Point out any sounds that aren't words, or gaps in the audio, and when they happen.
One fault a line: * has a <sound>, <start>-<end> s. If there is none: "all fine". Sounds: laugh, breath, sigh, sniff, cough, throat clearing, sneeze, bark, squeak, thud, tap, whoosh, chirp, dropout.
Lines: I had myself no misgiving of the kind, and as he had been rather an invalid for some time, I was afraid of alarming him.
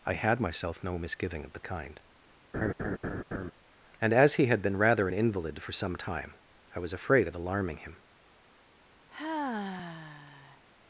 * has a laugh, 2.5-3.5 s
* has a sigh, 9.1-10.7 s